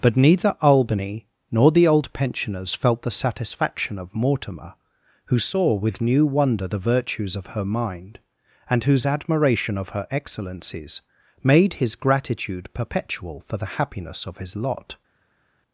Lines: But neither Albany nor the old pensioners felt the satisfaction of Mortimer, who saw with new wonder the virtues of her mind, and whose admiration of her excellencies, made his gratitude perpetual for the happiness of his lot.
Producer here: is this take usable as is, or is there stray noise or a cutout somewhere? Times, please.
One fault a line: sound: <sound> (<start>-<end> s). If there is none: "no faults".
no faults